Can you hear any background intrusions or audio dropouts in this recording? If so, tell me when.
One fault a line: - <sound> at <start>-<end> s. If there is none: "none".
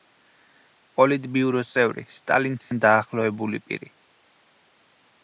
- dropout at 2.6-2.7 s